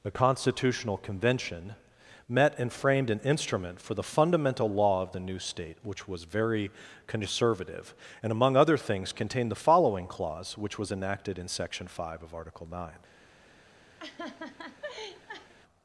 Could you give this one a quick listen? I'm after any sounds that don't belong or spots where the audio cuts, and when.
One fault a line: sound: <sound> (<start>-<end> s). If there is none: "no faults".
sound: laugh (14.0-15.5 s)